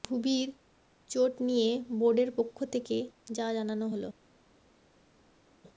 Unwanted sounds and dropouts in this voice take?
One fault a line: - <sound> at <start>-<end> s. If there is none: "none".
none